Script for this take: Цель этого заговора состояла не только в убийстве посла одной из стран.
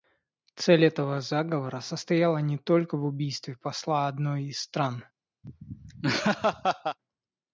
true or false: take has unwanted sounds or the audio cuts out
true